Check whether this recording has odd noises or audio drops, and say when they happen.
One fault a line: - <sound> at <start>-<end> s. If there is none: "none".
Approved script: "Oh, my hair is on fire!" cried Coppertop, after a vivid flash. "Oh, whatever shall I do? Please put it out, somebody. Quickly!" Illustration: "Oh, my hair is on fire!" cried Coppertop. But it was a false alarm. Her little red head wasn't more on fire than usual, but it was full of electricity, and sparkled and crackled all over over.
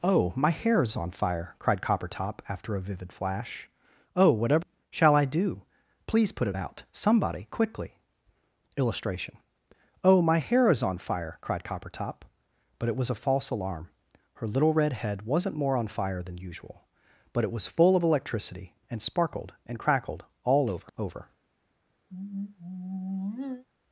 - sigh at 22.1-23.7 s